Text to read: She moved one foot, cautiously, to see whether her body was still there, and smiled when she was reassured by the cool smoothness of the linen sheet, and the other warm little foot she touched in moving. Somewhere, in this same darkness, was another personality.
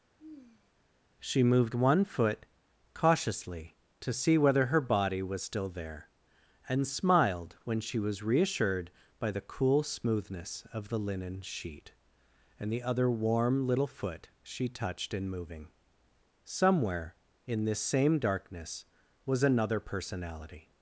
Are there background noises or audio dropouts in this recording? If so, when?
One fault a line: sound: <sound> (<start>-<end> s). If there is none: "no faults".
sound: sigh (0.2-0.7 s)